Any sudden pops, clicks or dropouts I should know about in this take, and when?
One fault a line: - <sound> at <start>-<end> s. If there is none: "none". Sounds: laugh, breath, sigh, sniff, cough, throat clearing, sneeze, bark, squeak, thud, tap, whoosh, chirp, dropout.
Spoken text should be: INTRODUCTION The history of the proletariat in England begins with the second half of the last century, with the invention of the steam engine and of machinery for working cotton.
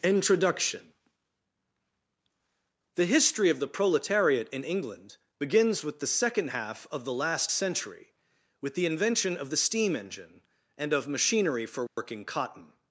- dropout at 11.9-12.0 s